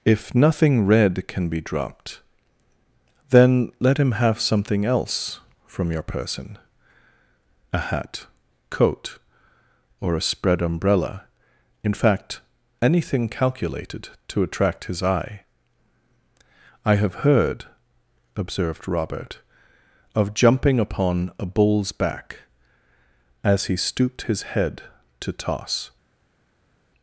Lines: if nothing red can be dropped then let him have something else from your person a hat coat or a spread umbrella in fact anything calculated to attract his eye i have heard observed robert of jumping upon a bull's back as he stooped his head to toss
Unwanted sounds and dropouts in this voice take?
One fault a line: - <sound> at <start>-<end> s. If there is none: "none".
none